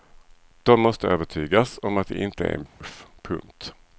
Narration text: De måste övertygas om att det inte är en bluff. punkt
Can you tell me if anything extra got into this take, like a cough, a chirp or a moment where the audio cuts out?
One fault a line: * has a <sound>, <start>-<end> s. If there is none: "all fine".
* has a dropout, 2.7-2.8 s